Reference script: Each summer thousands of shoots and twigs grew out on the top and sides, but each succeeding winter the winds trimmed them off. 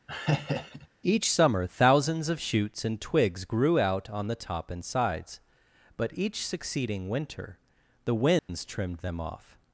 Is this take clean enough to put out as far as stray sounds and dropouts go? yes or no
no